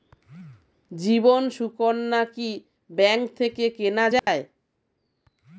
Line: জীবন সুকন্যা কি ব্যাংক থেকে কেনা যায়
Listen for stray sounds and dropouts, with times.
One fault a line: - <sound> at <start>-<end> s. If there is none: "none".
- dropout at 4.2-4.3 s